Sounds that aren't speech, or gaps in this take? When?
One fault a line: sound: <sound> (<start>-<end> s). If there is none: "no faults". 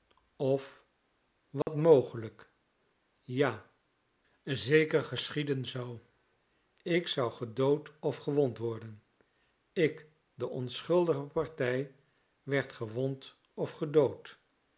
sound: dropout (1.6-1.7 s)